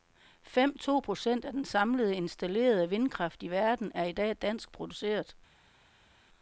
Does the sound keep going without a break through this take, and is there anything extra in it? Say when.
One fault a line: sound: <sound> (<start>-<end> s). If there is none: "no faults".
no faults